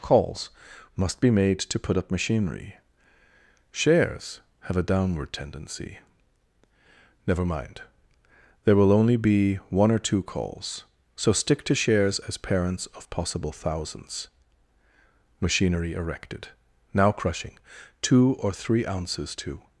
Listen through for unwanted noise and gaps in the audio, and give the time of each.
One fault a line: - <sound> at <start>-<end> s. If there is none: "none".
none